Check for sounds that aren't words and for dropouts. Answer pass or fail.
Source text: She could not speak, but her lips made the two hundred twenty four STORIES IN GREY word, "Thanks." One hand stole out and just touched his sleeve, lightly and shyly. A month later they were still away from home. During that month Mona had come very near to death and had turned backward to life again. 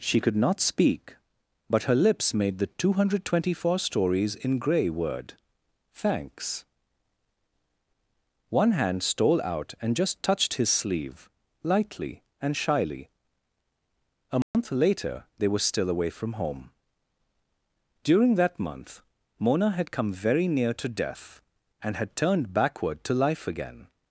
fail